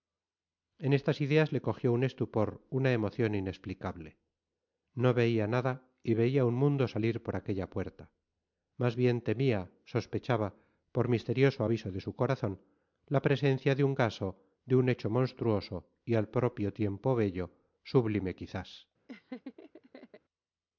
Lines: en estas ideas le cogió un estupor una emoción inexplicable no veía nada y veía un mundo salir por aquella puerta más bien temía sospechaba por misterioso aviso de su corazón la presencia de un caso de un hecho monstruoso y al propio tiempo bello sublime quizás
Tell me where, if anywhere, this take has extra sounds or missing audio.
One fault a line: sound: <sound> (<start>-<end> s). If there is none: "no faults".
sound: laugh (19.1-20.2 s)